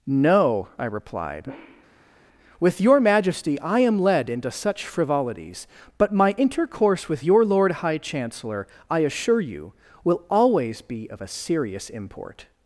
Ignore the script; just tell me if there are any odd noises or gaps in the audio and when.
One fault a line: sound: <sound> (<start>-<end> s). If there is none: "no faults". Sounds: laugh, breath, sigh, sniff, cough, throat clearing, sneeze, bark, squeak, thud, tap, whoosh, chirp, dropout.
no faults